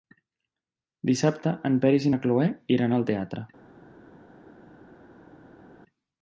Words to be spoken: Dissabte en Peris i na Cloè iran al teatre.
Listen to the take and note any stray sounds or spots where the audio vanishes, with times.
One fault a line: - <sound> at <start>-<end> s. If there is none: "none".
none